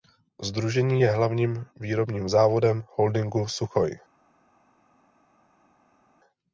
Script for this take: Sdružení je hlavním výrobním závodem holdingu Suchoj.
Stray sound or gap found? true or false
false